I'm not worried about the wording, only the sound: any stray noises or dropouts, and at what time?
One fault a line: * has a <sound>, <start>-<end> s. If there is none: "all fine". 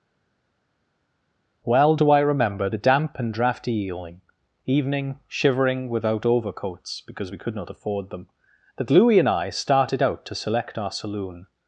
all fine